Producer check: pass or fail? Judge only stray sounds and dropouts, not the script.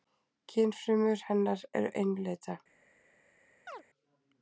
fail